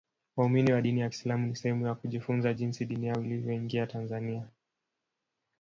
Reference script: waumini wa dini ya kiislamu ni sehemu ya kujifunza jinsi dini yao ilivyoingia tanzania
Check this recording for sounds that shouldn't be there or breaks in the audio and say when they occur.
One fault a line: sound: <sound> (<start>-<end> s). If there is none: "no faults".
no faults